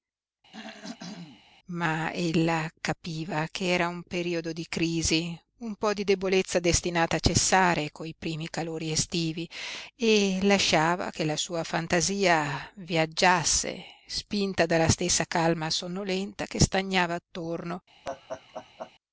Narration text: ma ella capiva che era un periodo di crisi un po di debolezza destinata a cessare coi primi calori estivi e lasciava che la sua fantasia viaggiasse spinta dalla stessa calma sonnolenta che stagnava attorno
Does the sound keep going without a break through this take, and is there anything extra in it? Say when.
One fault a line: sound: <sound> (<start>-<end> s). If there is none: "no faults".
sound: throat clearing (0.5-1.4 s)
sound: laugh (18.0-18.9 s)